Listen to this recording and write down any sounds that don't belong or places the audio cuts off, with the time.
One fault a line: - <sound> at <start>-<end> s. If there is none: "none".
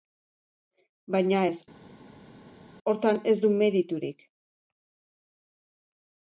none